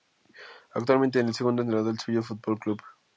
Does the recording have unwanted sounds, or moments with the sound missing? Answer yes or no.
no